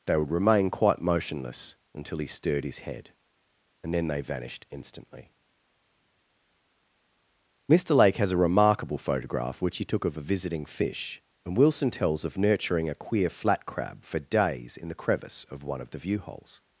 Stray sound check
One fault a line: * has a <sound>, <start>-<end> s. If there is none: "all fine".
all fine